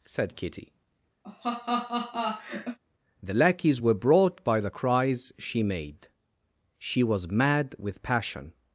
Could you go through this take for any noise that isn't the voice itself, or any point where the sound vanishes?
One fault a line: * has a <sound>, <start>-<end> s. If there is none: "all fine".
* has a laugh, 1.2-2.8 s